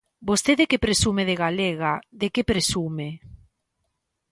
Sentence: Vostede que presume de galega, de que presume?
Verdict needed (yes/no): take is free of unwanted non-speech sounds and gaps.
yes